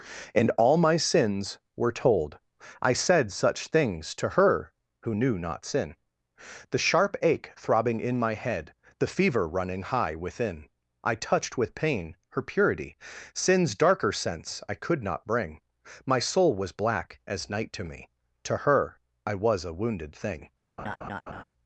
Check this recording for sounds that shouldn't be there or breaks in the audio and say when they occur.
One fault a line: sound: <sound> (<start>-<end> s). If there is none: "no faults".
sound: laugh (20.8-21.4 s)